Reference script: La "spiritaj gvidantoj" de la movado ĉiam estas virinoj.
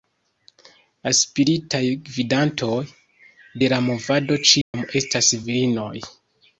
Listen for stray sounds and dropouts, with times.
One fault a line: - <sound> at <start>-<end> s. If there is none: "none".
- dropout at 4.6-4.7 s